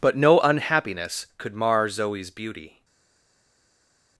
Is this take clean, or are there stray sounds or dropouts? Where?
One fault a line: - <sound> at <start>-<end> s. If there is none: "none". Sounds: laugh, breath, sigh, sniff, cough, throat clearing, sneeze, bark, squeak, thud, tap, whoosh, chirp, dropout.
none